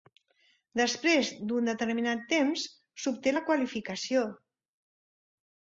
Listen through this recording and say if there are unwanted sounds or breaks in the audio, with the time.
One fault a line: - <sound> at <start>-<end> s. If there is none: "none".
none